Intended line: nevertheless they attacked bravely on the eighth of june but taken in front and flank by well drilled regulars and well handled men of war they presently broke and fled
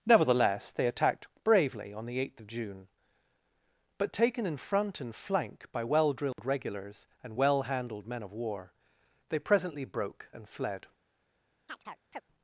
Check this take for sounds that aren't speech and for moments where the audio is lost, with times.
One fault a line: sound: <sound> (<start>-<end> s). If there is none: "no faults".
sound: dropout (6.3-6.4 s)
sound: chirp (11.7-12.2 s)